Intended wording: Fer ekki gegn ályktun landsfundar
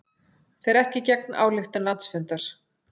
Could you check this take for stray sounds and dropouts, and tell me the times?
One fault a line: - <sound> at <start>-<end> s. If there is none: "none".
none